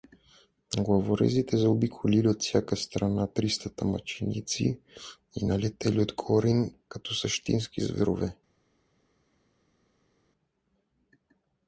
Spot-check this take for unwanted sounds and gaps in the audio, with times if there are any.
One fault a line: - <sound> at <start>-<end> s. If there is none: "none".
none